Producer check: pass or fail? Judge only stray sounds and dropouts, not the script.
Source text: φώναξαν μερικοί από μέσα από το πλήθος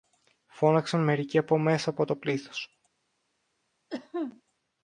fail